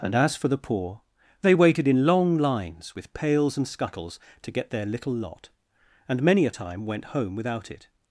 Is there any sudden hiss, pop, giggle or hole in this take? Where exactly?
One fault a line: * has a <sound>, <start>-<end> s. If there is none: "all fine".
all fine